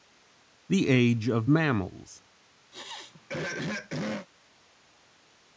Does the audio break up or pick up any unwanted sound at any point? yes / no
yes